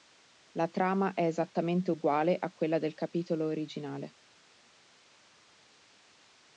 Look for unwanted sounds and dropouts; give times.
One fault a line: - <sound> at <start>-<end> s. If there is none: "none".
none